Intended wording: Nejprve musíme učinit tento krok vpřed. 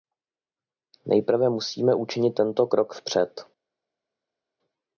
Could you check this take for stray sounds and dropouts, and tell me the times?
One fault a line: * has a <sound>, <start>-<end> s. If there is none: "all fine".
all fine